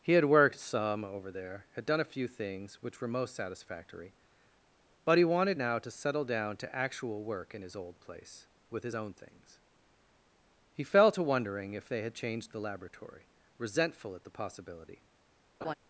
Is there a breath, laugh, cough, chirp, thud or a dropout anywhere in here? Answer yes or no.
yes